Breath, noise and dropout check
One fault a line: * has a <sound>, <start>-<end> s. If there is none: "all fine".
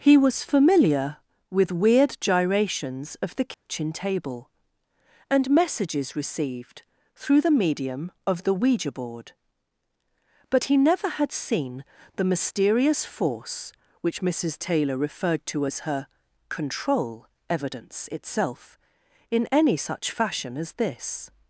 * has a dropout, 3.5-3.7 s